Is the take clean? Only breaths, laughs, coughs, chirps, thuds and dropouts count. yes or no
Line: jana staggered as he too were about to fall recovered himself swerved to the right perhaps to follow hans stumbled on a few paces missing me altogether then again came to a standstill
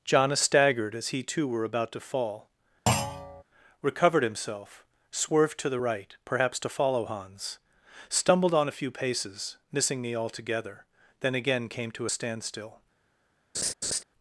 no